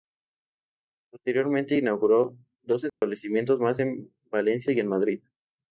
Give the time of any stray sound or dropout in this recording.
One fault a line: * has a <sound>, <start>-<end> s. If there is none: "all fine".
* has a dropout, 2.9-3.0 s